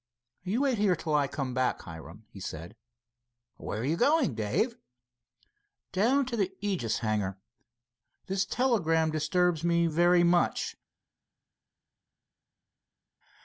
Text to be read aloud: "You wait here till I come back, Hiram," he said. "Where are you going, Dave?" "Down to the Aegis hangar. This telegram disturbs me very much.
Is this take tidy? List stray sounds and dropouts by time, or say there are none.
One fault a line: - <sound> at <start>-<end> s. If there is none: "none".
none